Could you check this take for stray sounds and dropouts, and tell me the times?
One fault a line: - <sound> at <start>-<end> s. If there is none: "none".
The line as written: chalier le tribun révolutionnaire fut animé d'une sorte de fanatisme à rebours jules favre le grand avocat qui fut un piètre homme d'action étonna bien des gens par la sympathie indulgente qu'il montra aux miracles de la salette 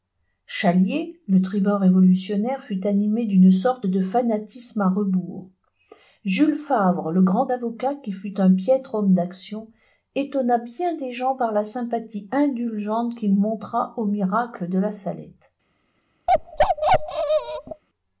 - bark at 16.3-17.8 s